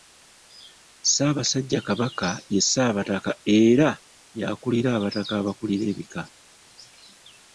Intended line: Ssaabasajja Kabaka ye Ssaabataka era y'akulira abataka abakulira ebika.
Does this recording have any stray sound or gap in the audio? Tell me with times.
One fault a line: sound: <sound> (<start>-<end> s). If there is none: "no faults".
no faults